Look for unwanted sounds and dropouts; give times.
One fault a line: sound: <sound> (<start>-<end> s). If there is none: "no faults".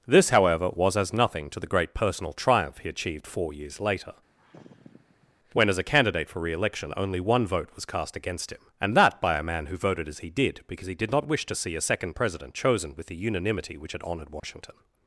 sound: sigh (4.4-5.3 s)
sound: dropout (14.4-14.4 s)